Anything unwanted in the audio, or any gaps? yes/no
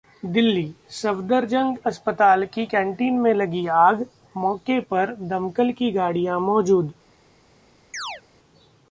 yes